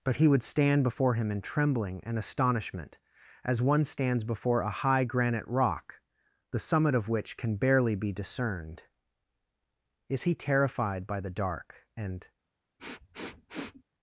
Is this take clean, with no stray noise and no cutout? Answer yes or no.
no